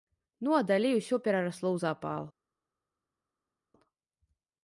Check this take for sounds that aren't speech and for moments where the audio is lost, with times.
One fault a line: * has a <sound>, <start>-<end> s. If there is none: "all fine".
all fine